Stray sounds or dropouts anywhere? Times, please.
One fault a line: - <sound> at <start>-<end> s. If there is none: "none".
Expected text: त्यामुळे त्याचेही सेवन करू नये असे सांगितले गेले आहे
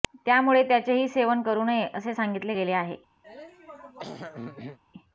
- throat clearing at 3.2-4.8 s